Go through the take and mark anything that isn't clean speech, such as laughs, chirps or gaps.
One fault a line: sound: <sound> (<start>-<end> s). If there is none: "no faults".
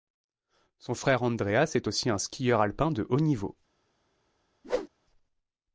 sound: whoosh (4.6-4.9 s)